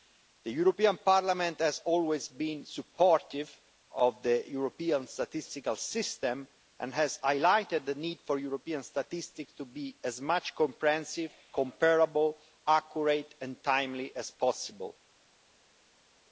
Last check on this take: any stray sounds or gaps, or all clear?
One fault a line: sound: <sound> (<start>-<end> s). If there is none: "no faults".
no faults